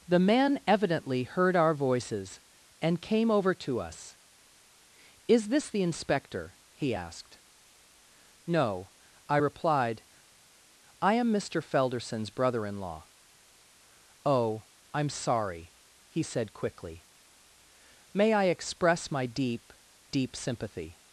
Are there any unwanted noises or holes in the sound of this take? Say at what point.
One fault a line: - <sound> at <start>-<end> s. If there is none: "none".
none